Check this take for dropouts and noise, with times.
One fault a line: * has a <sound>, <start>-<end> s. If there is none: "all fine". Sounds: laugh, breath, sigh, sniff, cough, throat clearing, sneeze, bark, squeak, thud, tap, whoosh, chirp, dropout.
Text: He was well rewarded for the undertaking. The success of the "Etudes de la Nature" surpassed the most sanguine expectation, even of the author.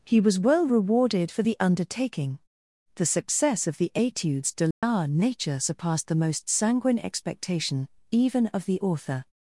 * has a dropout, 4.7-4.8 s